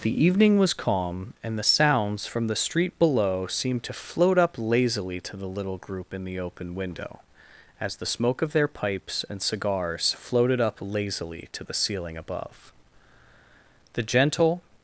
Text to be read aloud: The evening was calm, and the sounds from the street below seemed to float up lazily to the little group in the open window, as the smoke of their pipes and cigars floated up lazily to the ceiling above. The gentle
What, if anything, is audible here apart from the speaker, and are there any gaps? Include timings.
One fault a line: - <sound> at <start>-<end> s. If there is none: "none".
none